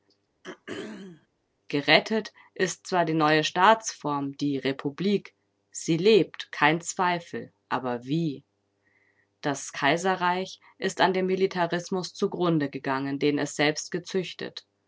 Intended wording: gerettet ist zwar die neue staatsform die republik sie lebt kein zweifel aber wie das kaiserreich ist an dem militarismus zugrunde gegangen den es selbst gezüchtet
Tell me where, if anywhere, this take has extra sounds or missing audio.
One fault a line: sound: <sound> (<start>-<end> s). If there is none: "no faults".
sound: throat clearing (0.4-1.3 s)